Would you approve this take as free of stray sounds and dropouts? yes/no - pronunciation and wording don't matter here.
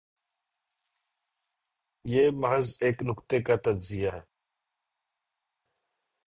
yes